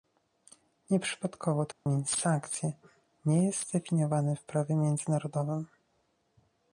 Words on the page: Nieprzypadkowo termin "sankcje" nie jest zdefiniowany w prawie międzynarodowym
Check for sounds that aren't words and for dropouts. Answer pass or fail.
fail